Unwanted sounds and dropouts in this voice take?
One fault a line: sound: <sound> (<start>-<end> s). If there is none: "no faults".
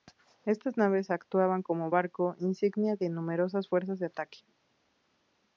no faults